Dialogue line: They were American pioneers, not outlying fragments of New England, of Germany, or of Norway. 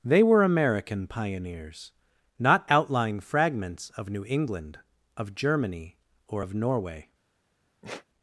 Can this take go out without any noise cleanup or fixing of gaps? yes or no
no